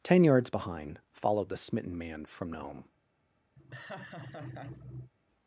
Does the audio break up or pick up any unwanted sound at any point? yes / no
yes